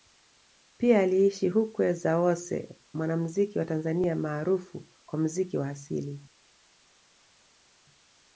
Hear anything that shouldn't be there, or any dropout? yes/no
no